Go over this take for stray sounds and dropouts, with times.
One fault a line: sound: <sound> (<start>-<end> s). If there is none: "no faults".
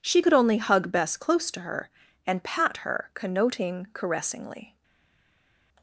no faults